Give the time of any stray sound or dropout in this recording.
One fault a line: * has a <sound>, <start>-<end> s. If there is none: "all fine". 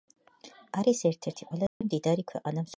* has a dropout, 1.7-1.8 s